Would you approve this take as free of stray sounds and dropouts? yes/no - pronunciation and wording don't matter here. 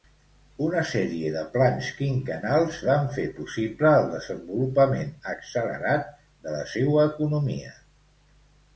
yes